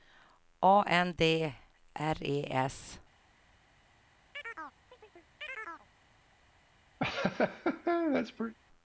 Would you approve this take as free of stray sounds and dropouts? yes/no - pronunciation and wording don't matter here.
no